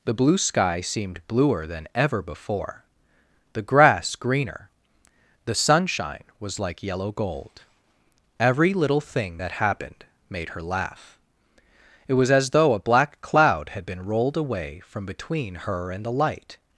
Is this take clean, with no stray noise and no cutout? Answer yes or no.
yes